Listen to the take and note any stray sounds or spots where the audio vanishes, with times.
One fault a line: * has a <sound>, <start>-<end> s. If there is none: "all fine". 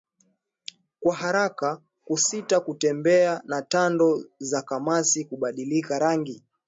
all fine